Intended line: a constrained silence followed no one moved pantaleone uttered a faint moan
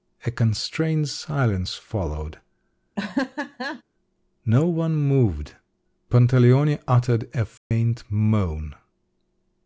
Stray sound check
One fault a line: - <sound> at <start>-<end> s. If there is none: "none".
- laugh at 3.0-3.8 s
- dropout at 7.6-7.7 s